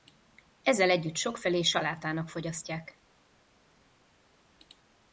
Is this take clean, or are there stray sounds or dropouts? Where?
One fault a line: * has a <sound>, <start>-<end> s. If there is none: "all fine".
all fine